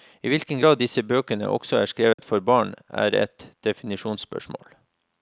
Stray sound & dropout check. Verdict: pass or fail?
fail